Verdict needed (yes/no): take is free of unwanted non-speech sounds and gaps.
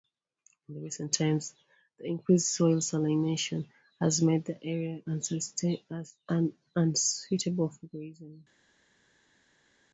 yes